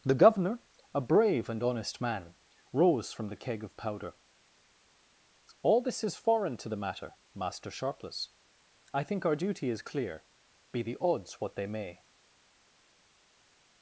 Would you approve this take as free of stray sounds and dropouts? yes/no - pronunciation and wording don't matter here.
yes